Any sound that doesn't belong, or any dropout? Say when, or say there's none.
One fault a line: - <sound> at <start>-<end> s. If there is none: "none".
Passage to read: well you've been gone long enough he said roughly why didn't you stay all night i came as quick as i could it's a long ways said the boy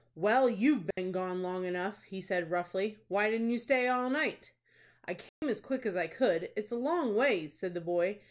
- dropout at 0.9-1.0 s
- dropout at 5.3-5.4 s